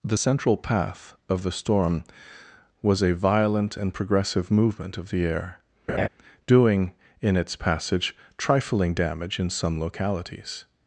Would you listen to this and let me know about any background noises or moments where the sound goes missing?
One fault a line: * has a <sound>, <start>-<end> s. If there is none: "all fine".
* has a laugh, 5.9-6.1 s